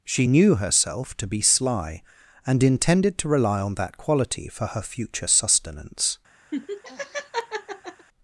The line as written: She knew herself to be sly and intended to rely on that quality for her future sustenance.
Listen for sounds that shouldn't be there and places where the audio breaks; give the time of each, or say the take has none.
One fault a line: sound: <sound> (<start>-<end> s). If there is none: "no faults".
sound: laugh (6.5-8.1 s)